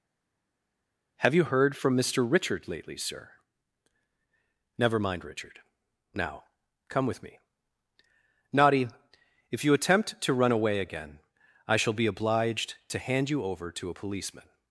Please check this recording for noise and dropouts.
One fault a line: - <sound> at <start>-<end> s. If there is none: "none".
none